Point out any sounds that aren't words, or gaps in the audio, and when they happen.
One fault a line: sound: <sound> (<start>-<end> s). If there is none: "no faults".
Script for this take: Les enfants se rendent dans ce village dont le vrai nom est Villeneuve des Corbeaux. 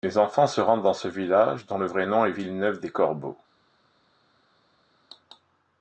no faults